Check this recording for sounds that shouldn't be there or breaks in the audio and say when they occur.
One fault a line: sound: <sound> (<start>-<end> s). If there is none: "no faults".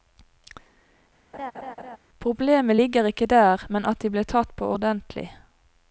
sound: laugh (1.3-2.0 s)